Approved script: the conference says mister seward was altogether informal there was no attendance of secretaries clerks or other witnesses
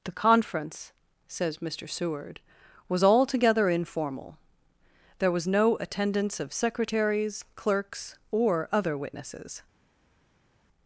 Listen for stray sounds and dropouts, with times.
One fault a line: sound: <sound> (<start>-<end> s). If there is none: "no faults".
no faults